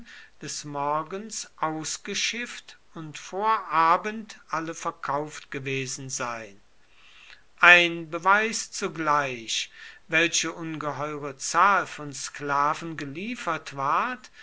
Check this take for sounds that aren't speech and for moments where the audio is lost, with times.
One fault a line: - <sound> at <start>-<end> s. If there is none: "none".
none